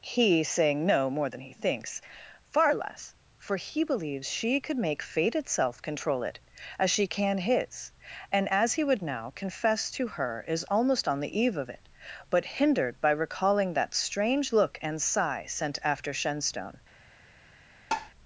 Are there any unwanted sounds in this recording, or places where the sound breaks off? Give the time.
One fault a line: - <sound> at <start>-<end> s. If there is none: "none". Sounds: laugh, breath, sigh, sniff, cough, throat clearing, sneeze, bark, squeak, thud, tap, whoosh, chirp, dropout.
- tap at 17.9-18.1 s